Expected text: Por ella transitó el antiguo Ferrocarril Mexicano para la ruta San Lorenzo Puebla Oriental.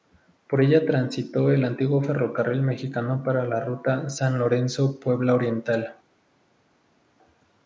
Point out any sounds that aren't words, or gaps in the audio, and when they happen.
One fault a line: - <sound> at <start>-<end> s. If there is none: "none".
none